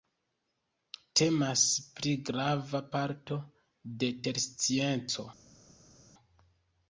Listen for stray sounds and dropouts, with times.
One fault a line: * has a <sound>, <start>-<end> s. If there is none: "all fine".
all fine